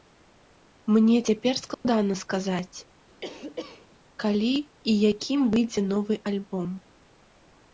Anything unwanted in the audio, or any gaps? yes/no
yes